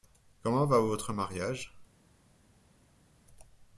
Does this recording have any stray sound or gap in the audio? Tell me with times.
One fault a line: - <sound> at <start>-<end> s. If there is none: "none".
none